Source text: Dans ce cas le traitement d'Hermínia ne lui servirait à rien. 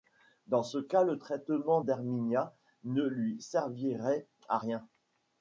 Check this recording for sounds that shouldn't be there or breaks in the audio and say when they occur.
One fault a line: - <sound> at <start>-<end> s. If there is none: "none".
none